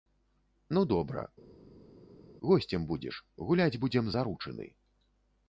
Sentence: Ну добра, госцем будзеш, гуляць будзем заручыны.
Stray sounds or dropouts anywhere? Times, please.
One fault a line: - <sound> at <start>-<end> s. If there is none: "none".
none